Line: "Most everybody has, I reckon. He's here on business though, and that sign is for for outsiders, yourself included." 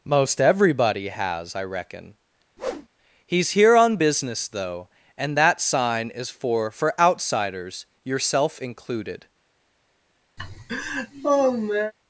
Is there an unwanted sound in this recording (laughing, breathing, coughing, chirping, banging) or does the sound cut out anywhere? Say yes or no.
yes